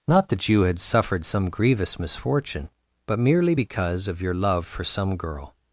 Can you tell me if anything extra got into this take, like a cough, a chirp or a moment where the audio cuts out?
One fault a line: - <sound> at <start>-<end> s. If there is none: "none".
none